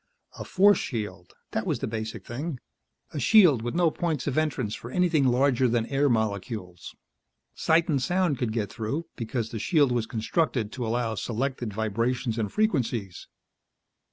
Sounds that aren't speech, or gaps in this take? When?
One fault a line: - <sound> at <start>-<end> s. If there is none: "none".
none